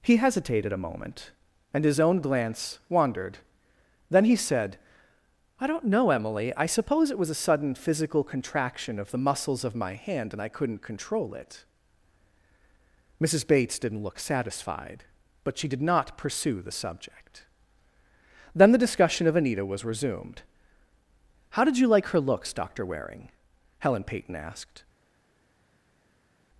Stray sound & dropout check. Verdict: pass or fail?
pass